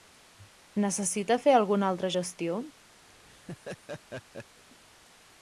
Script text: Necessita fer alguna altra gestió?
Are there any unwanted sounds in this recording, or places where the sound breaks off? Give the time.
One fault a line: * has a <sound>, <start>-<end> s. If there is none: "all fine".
* has a laugh, 3.1-4.6 s